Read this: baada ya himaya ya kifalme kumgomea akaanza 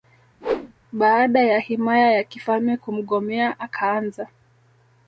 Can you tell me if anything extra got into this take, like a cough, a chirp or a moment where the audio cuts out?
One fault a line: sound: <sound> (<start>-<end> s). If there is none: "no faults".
sound: whoosh (0.4-0.7 s)